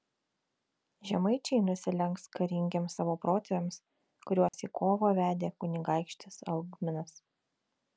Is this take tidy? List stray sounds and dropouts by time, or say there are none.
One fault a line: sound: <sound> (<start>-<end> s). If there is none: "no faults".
sound: dropout (4.5-4.5 s)